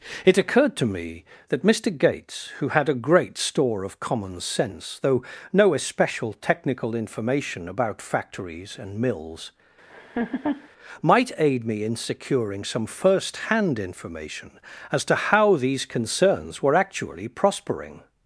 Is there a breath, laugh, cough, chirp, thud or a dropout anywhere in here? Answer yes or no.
yes